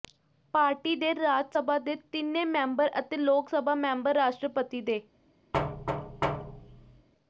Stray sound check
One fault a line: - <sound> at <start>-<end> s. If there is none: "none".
- thud at 5.5-7.1 s